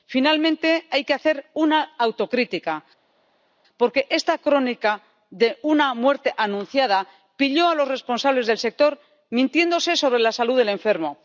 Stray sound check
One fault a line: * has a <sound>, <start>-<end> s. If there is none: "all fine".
all fine